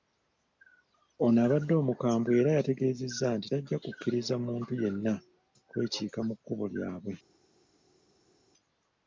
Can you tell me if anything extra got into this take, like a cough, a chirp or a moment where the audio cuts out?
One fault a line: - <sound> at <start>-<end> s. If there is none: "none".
none